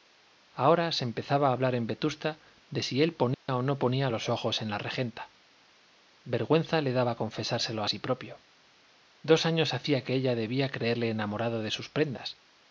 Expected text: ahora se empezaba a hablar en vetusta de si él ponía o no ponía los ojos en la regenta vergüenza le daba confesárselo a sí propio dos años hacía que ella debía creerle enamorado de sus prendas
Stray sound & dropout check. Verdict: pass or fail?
fail